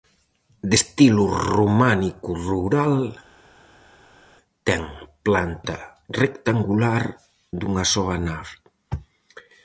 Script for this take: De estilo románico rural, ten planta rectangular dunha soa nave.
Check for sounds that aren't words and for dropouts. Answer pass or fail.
pass